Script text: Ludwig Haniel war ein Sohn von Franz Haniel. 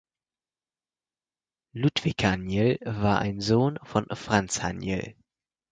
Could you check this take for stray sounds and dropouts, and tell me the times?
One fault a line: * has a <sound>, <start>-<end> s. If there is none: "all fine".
all fine